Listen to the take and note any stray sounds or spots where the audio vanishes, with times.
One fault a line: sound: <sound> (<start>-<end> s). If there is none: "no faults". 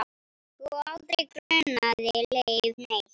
sound: dropout (1.4-1.5 s)